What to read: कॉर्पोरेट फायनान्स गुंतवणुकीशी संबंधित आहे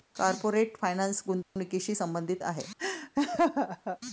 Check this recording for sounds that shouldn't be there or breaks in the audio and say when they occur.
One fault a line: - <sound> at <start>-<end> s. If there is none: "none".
- dropout at 1.4-1.6 s
- laugh at 2.8-4.0 s